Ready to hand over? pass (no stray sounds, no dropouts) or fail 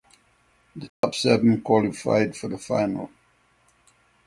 fail